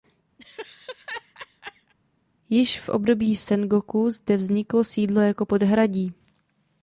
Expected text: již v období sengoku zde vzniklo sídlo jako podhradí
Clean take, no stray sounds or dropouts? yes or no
no